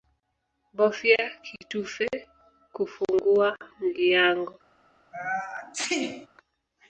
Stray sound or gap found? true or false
true